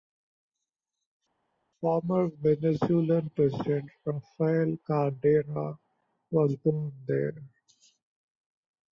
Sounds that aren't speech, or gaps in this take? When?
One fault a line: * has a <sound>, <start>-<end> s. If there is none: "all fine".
all fine